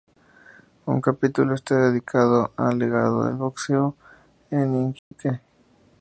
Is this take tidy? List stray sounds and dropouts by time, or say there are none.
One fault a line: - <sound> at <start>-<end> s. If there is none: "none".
- dropout at 5.0-5.1 s